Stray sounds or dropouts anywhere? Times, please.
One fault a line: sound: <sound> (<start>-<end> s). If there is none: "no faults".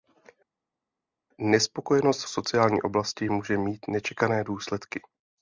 no faults